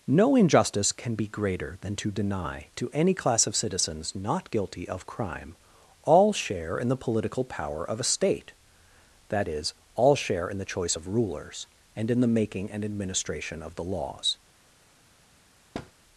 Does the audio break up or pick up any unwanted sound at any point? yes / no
yes